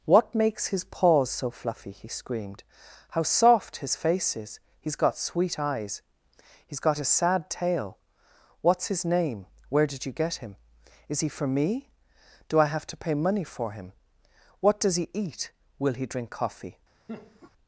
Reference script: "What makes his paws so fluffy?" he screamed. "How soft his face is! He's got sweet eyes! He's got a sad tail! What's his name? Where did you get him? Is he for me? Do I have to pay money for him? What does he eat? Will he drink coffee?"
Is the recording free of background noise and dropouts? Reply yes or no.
no